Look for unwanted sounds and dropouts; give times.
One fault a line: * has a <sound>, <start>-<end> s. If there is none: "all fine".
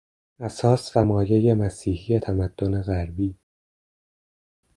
all fine